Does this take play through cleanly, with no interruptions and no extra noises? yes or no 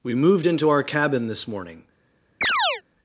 no